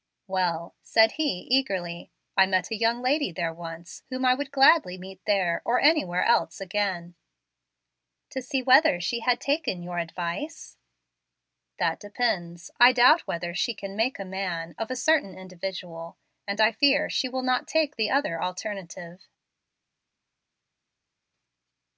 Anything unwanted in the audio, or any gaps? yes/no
no